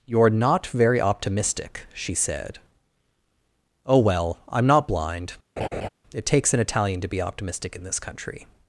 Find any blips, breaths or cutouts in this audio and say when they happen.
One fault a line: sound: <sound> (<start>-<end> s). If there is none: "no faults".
sound: laugh (5.6-5.9 s)